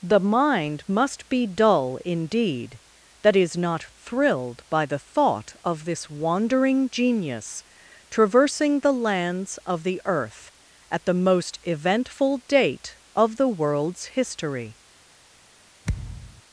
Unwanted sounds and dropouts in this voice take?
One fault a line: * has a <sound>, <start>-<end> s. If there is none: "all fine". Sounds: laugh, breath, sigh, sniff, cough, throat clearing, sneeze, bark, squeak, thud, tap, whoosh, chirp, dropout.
* has a thud, 15.8-16.4 s